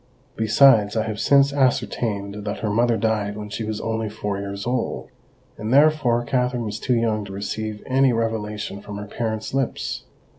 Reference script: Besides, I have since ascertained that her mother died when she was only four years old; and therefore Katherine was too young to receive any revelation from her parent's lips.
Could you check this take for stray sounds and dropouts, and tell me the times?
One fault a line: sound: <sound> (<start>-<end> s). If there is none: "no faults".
no faults